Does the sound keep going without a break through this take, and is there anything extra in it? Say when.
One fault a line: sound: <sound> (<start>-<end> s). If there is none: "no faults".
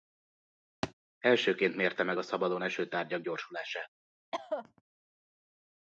sound: thud (0.8-0.9 s)
sound: cough (4.3-4.8 s)